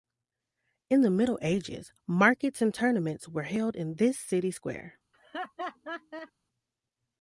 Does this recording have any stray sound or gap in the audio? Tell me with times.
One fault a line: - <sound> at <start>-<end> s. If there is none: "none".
- laugh at 5.1-6.3 s